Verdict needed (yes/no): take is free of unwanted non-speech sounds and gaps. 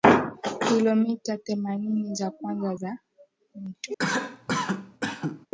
no